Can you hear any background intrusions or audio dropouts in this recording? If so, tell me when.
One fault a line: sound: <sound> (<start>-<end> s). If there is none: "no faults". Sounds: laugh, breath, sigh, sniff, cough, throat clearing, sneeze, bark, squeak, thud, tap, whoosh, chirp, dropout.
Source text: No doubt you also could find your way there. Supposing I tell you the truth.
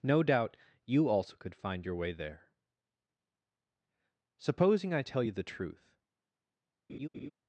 sound: laugh (6.9-7.3 s)